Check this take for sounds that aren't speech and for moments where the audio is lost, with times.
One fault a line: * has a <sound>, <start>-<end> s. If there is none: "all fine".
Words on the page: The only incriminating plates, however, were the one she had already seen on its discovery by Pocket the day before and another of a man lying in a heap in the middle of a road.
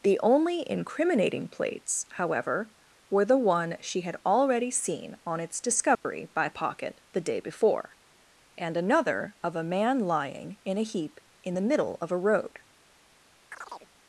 * has a dropout, 6.0-6.0 s
* has a chirp, 13.5-13.9 s